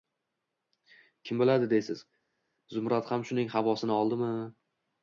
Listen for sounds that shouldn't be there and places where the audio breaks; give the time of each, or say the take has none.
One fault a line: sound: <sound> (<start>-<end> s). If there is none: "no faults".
no faults